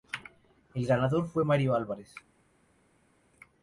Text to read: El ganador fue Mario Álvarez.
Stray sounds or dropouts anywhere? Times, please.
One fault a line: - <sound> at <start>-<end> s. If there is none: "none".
none